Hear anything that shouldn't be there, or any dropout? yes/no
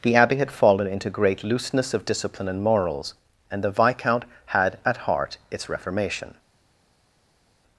no